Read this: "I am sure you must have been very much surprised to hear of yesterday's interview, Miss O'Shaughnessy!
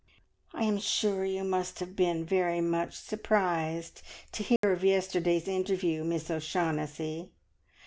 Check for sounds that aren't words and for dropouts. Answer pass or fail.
fail